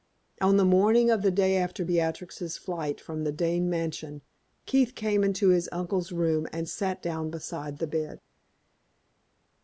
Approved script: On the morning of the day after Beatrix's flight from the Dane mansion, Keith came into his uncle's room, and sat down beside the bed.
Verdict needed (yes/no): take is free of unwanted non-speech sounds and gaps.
yes